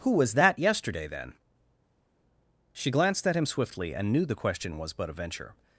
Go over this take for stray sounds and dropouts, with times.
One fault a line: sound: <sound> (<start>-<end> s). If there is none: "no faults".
no faults